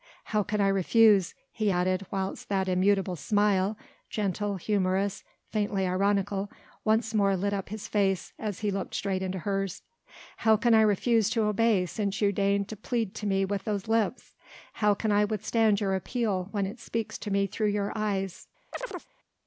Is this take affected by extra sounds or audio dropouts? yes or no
yes